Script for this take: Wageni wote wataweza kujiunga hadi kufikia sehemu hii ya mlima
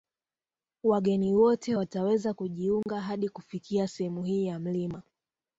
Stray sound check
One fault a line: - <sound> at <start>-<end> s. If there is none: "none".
- dropout at 2.8-2.9 s